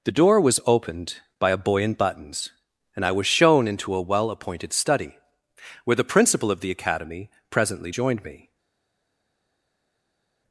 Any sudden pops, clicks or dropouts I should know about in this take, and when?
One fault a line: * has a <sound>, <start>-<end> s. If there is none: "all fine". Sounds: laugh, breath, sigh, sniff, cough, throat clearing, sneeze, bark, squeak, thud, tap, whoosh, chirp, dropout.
all fine